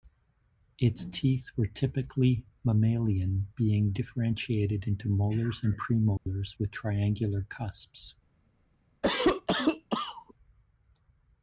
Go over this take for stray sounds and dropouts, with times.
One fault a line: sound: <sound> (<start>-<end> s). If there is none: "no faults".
sound: dropout (6.2-6.3 s)
sound: cough (9.0-10.3 s)